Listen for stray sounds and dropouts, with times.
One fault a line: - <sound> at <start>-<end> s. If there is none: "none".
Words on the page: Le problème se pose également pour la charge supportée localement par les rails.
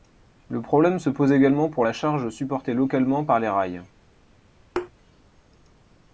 - thud at 4.8-4.9 s